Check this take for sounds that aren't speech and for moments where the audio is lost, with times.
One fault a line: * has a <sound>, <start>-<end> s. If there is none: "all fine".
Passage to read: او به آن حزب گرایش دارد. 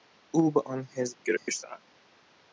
* has a dropout, 1.4-1.5 s